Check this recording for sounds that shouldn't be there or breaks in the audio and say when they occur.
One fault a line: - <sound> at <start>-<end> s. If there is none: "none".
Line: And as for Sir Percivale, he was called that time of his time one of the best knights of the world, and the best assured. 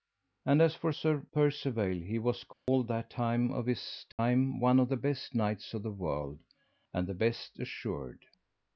- dropout at 2.5-2.7 s
- dropout at 4.1-4.2 s